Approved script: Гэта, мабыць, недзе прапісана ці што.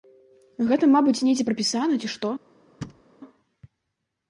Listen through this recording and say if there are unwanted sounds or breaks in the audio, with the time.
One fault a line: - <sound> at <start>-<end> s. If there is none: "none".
- thud at 2.8-3.0 s